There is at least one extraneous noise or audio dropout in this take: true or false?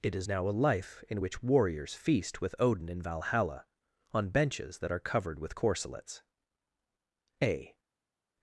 false